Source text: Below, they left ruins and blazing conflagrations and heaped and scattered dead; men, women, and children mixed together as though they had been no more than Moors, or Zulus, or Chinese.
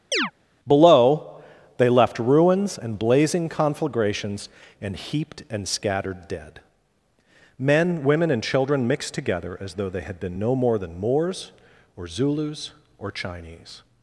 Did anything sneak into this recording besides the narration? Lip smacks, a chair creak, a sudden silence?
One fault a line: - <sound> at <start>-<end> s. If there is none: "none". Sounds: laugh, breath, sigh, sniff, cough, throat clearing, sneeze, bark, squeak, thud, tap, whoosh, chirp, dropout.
- chirp at 0.1-0.3 s